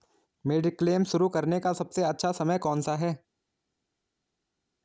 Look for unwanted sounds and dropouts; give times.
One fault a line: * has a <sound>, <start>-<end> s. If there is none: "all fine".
all fine